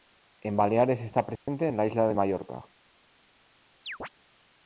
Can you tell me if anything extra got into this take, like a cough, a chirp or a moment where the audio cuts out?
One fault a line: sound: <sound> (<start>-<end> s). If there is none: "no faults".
sound: dropout (1.4-1.5 s)
sound: chirp (3.8-4.1 s)